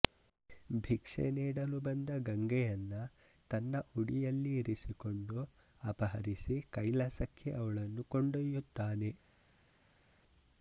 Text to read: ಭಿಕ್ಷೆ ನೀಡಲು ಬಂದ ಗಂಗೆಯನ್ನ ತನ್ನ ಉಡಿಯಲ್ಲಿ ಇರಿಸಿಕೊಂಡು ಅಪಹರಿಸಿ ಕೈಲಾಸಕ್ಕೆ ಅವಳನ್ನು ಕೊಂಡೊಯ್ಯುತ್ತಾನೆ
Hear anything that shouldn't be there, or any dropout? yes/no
no